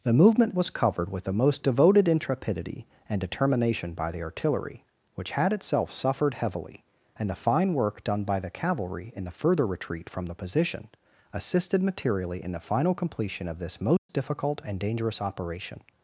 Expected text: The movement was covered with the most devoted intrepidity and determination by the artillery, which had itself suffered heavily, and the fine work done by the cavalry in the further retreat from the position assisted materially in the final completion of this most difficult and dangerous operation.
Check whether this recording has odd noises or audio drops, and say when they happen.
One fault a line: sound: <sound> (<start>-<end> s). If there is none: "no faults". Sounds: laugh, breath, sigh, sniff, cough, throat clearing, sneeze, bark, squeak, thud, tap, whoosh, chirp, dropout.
sound: dropout (14.0-14.1 s)